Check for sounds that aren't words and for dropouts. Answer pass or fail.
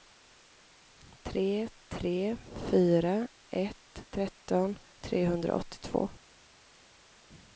pass